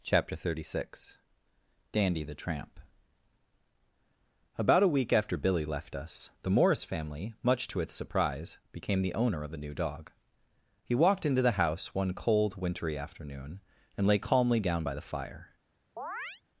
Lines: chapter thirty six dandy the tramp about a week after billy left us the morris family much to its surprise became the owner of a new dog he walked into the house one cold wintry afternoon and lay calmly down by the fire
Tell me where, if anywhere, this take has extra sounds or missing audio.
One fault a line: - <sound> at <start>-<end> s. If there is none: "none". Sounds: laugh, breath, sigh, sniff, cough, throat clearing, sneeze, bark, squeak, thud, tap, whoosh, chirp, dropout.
- chirp at 16.0-16.4 s